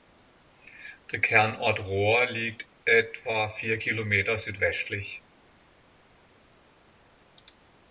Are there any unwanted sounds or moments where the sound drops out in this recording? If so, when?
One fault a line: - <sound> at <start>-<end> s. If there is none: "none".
none